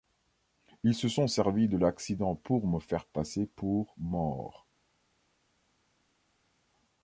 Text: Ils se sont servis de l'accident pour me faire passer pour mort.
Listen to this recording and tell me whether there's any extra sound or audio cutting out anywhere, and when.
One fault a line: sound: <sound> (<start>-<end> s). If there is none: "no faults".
no faults